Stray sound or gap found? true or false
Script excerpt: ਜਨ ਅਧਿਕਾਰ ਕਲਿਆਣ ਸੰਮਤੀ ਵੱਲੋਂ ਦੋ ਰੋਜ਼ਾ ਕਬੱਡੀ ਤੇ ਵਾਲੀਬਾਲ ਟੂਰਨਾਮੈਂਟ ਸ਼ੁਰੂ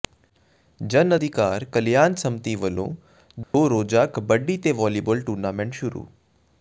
true